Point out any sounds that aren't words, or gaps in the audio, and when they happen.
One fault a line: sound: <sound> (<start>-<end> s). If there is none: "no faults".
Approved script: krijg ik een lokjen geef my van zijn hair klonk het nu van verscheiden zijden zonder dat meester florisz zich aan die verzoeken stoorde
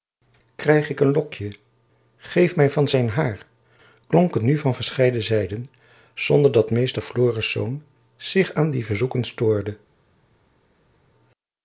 no faults